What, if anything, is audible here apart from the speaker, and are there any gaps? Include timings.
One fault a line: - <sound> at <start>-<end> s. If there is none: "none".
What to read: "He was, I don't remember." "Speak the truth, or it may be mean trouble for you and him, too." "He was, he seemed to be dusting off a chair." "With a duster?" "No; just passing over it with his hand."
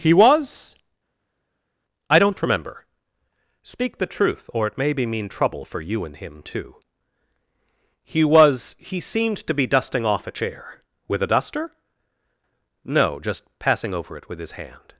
none